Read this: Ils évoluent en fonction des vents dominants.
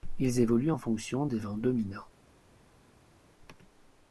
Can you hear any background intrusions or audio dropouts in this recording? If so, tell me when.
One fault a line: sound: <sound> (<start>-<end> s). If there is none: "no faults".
no faults